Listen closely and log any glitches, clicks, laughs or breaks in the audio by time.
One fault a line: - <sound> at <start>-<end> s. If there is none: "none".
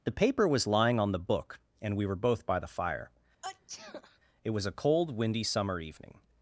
- sneeze at 3.4-4.2 s